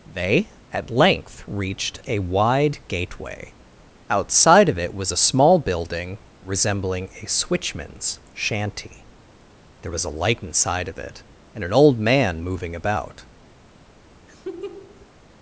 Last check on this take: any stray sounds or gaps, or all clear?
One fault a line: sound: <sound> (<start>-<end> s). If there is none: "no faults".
sound: laugh (14.3-15.1 s)